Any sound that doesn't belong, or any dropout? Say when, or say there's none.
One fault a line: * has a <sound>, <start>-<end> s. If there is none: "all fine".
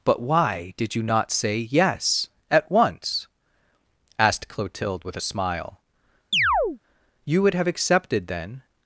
* has a chirp, 6.3-6.8 s